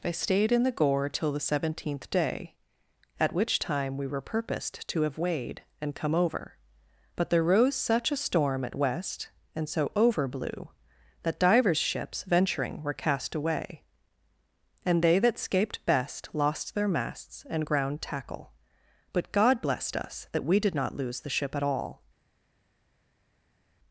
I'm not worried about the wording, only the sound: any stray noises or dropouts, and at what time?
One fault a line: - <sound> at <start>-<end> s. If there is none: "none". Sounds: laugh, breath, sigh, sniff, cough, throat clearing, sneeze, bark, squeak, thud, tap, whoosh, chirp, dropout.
none